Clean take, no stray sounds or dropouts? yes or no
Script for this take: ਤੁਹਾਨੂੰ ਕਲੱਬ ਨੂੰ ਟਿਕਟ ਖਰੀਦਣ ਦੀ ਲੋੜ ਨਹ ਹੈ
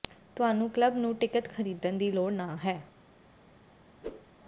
no